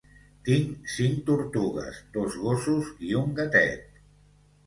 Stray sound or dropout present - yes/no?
no